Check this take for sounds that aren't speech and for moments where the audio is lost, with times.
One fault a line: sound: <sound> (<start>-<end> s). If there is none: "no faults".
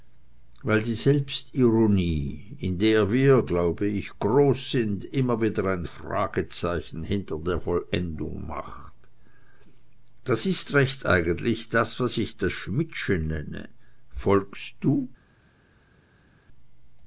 no faults